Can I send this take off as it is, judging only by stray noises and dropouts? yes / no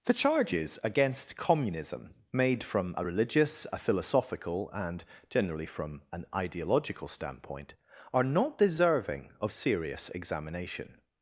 yes